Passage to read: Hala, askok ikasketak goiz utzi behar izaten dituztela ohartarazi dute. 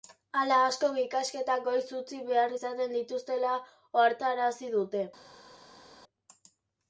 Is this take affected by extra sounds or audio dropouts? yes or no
no